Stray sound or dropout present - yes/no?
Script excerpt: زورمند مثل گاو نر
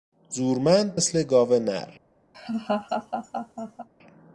yes